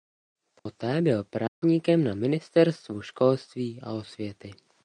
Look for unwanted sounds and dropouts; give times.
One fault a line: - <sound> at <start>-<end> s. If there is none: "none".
- dropout at 0.6-0.7 s
- dropout at 1.5-1.6 s